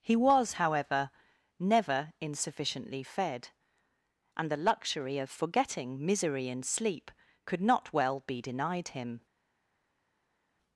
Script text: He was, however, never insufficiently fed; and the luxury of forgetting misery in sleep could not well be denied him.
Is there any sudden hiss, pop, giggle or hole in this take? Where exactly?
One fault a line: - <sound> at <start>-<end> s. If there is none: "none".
none